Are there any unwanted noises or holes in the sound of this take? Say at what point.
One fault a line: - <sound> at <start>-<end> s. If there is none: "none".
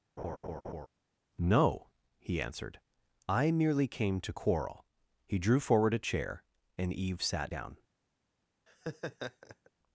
- laugh at 0.2-0.9 s
- laugh at 8.7-9.7 s